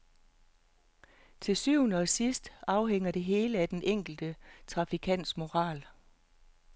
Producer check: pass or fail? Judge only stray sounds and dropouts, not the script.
pass